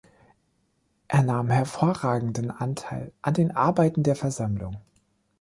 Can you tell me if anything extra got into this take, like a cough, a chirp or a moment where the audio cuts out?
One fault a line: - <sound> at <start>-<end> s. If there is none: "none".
none